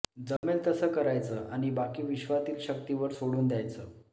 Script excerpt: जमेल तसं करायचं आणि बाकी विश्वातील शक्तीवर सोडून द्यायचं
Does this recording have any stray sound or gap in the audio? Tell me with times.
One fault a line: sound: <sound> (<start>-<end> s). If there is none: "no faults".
sound: dropout (0.4-0.4 s)